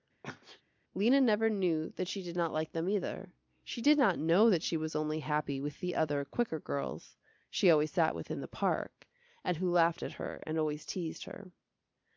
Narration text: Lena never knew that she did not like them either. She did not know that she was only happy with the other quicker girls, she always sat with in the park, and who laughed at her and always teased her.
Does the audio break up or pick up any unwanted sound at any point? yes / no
yes